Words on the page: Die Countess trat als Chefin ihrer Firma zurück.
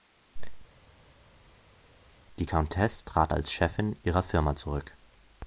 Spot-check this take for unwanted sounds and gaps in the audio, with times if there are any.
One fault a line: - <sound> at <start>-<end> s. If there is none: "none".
none